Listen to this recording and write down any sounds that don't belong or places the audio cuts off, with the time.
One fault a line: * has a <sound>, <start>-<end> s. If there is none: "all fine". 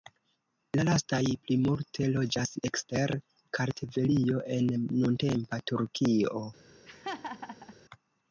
* has a laugh, 6.9-7.7 s